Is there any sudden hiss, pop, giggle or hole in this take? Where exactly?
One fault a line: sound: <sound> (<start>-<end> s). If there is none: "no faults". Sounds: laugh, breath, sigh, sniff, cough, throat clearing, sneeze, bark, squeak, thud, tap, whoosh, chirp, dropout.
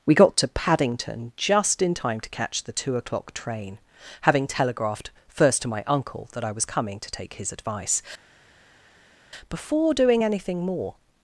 no faults